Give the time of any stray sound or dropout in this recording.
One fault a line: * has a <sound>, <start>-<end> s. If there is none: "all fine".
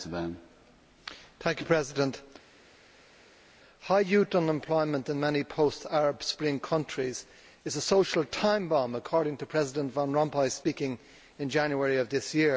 all fine